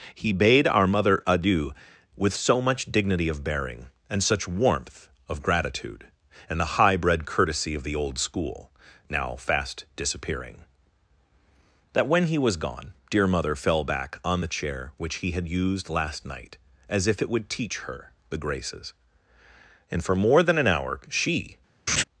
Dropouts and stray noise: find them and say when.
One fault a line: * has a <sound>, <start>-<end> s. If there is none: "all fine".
* has a laugh, 21.9-22.0 s